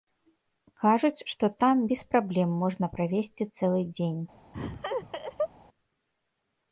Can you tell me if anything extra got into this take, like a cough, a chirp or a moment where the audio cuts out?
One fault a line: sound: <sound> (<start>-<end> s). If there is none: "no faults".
sound: laugh (4.5-5.5 s)